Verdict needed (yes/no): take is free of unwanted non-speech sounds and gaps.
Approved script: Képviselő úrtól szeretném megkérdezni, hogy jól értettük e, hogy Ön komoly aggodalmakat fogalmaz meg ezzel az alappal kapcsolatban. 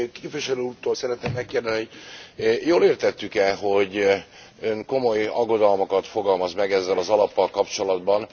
yes